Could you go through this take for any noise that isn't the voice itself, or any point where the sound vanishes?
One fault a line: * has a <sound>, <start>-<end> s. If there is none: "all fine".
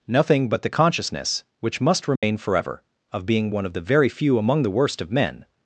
* has a dropout, 2.2-2.2 s